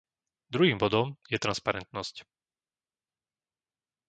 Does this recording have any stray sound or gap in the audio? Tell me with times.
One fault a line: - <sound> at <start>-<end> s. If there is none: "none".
none